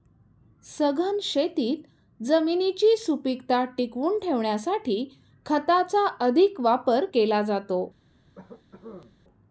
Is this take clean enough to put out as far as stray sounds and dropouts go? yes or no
no